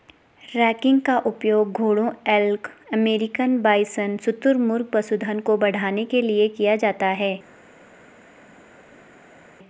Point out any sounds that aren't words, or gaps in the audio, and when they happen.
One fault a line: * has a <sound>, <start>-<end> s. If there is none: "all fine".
all fine